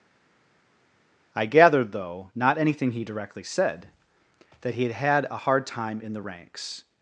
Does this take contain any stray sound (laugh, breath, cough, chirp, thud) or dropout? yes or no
no